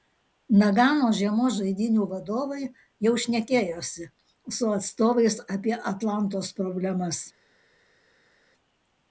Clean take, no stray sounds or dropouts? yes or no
yes